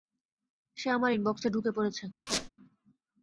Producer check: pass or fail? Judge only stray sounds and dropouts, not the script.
fail